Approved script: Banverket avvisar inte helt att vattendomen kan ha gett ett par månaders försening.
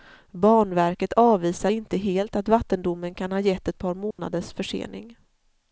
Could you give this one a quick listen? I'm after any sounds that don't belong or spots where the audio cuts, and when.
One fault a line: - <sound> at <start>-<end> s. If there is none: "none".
- dropout at 4.1-4.2 s